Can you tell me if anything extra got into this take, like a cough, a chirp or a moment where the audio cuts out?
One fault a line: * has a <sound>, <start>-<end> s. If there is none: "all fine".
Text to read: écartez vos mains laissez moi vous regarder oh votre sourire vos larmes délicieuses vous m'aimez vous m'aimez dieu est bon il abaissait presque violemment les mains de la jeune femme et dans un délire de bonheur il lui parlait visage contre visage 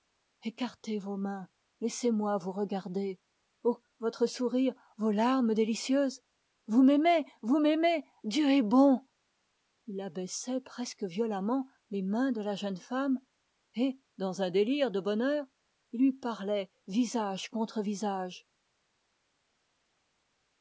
all fine